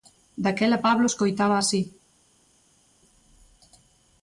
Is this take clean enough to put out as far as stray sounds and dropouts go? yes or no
yes